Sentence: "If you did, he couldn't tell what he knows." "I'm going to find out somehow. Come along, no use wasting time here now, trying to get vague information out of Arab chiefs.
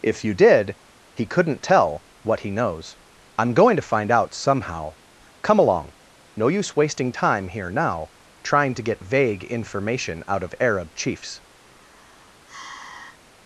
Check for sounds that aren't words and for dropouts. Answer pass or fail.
fail